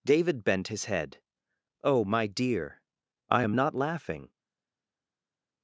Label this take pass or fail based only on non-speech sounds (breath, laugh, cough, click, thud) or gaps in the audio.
pass